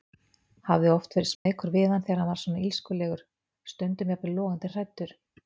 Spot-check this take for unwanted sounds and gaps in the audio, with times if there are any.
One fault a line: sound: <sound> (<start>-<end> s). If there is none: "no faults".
sound: dropout (1.3-1.5 s)